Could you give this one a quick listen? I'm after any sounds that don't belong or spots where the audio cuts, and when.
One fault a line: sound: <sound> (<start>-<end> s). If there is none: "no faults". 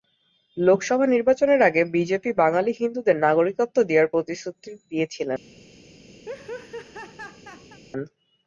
sound: laugh (6.2-7.8 s)